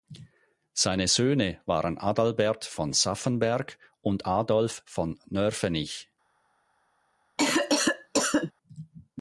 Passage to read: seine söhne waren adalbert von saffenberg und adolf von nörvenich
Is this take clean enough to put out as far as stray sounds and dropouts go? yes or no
no